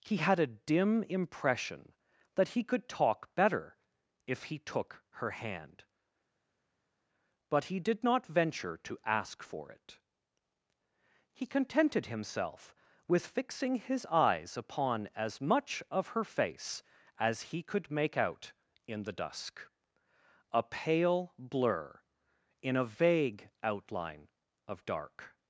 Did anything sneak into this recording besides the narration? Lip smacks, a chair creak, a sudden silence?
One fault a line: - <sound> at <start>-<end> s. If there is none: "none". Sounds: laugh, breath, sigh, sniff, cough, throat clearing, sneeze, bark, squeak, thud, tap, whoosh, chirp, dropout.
none